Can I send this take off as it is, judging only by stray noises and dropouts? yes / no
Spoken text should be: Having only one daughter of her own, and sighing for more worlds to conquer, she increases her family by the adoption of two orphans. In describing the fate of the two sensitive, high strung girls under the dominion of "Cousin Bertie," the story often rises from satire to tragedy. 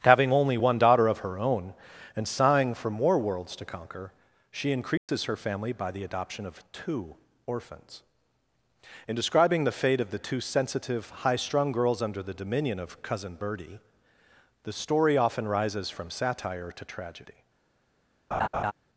no